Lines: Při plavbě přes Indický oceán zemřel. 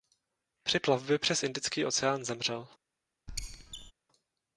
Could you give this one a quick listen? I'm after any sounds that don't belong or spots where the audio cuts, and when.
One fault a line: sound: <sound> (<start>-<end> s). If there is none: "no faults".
sound: squeak (3.3-3.9 s)